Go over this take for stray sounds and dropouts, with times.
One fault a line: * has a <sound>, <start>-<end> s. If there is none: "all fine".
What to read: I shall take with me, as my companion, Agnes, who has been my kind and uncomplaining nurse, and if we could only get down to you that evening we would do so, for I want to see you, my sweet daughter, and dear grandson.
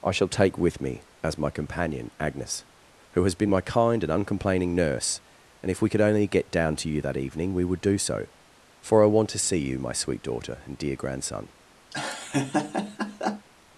* has a laugh, 11.9-13.5 s